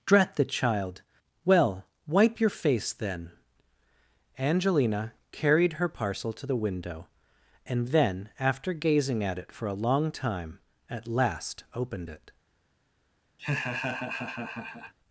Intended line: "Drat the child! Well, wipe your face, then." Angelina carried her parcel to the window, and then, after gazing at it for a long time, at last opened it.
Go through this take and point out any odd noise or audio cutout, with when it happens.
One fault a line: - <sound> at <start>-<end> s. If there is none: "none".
- laugh at 13.4-14.9 s